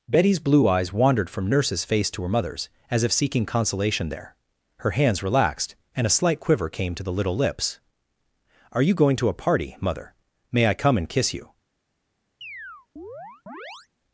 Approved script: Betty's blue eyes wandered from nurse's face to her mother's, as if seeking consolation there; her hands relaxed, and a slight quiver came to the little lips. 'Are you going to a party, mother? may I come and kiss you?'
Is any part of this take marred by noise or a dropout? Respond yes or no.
yes